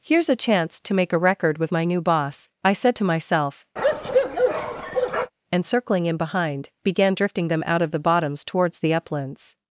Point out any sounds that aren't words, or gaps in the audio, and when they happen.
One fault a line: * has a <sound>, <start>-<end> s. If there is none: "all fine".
* has a bark, 3.8-5.3 s